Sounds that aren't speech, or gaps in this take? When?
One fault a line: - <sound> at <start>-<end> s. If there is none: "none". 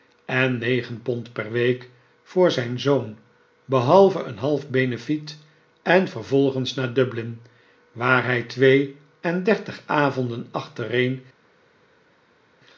none